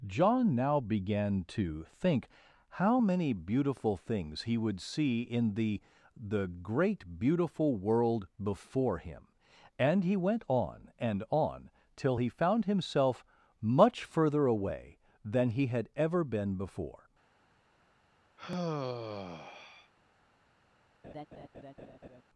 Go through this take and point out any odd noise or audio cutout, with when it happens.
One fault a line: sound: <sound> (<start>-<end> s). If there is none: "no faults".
sound: sigh (18.4-19.9 s)
sound: laugh (21.0-22.2 s)